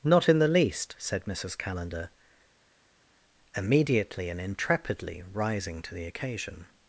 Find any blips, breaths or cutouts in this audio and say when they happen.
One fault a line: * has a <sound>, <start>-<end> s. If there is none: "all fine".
all fine